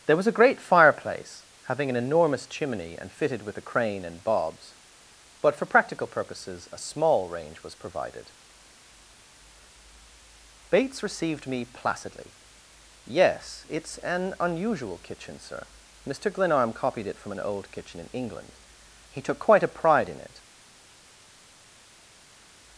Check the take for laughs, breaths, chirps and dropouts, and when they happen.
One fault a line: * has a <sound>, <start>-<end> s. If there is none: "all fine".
all fine